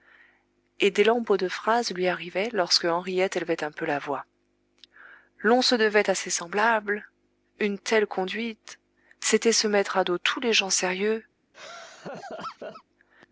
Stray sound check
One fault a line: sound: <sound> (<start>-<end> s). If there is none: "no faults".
sound: laugh (11.5-12.8 s)